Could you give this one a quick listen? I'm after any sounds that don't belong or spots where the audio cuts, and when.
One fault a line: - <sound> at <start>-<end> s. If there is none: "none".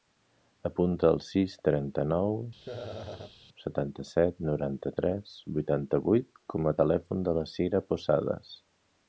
- laugh at 2.6-3.4 s